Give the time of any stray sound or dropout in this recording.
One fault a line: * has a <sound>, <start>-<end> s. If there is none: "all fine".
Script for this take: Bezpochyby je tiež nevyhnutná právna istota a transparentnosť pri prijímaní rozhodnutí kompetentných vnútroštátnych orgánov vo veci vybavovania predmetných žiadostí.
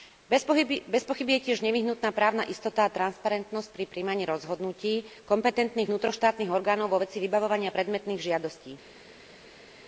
all fine